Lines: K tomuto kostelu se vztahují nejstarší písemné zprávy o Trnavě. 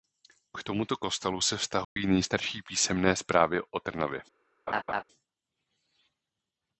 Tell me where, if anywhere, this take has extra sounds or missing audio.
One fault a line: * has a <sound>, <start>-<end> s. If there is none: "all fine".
* has a dropout, 1.8-2.0 s
* has a laugh, 4.7-5.0 s